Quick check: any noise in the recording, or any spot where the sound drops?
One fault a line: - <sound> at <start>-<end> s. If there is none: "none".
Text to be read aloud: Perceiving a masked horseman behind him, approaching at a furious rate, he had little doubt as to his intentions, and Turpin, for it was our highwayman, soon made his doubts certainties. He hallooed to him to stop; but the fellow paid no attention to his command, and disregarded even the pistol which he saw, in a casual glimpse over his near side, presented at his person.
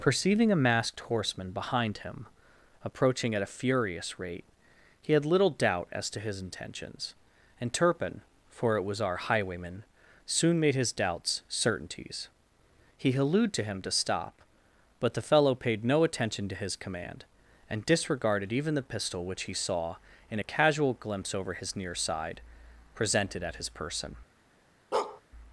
- bark at 24.9-25.2 s